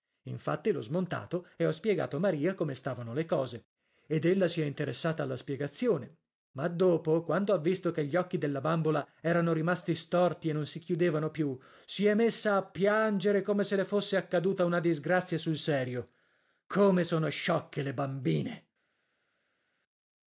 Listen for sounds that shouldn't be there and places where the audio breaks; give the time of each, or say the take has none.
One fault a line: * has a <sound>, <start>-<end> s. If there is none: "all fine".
all fine